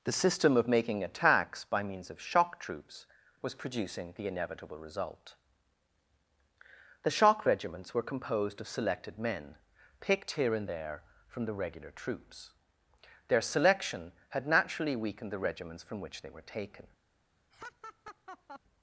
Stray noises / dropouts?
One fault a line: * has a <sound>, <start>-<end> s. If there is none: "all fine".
* has a laugh, 17.5-18.6 s